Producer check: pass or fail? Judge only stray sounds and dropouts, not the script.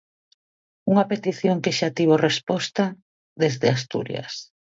pass